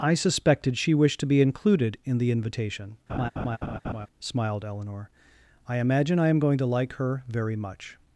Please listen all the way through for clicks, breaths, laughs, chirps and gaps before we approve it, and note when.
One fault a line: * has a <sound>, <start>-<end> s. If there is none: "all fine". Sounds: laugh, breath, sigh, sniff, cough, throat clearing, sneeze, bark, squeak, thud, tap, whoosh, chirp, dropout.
* has a laugh, 3.1-4.1 s